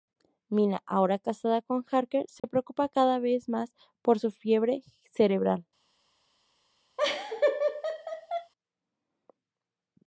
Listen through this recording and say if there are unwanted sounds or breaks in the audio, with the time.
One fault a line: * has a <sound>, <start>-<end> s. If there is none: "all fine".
* has a dropout, 2.4-2.4 s
* has a laugh, 7.0-8.5 s